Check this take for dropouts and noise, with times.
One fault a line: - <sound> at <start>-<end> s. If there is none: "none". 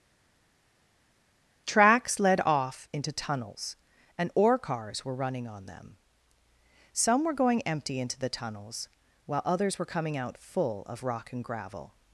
none